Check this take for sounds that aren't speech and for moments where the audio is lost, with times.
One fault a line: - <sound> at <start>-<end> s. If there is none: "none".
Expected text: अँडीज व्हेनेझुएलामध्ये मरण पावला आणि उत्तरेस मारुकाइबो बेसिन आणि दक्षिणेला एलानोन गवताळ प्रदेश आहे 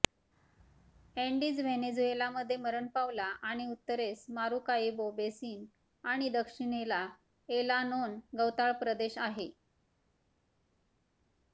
none